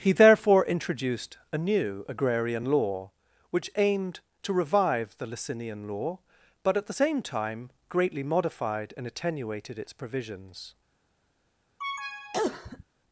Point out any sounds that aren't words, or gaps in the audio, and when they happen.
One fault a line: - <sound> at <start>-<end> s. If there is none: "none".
- cough at 11.8-12.8 s